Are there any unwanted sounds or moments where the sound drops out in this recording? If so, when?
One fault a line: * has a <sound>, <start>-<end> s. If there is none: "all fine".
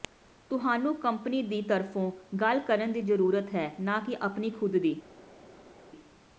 all fine